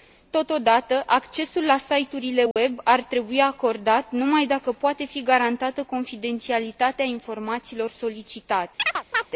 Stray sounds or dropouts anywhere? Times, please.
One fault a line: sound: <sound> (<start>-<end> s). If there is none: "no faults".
sound: dropout (2.5-2.6 s)
sound: chirp (8.8-9.3 s)